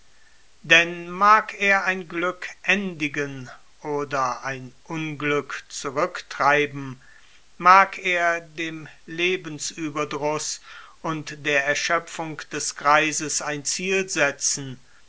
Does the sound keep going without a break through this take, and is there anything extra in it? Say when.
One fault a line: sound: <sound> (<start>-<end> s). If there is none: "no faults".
no faults